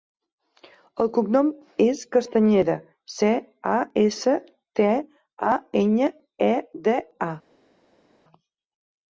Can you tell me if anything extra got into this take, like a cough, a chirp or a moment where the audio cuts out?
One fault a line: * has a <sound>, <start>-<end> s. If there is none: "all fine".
all fine